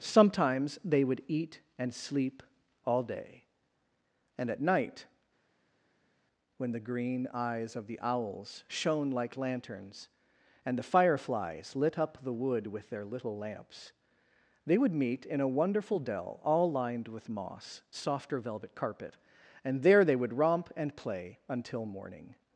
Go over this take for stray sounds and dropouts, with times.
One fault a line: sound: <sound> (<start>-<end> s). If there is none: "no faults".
no faults